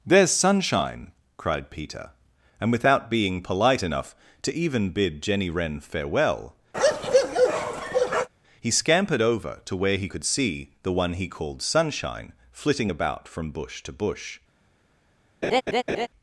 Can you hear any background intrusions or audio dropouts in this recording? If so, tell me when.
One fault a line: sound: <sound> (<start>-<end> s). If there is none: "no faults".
sound: bark (6.7-8.3 s)
sound: laugh (15.4-16.1 s)